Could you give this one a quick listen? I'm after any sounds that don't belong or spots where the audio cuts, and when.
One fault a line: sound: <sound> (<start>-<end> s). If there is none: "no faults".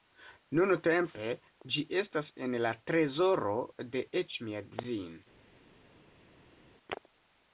no faults